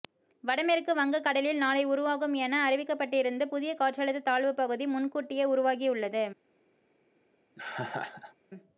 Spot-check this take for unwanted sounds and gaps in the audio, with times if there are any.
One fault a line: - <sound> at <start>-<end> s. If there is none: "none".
- laugh at 7.6-8.3 s